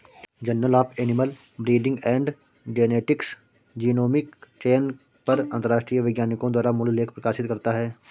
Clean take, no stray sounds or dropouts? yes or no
yes